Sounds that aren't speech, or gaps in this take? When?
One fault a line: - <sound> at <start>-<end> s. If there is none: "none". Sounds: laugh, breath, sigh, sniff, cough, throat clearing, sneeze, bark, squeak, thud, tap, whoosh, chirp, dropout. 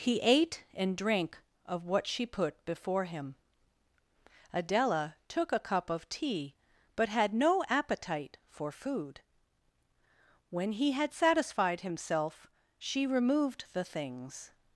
none